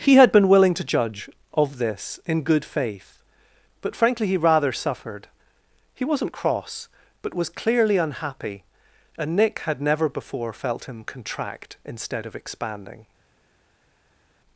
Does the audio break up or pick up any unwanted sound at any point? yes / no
no